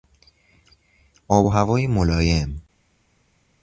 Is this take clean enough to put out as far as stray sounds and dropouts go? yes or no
yes